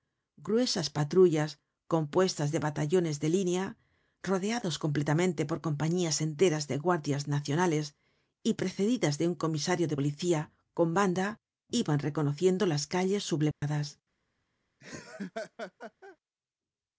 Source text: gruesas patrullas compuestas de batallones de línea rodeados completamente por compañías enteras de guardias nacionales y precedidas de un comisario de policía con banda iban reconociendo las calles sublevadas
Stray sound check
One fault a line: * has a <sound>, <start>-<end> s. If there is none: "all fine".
* has a dropout, 13.5-13.6 s
* has a laugh, 14.8-16.2 s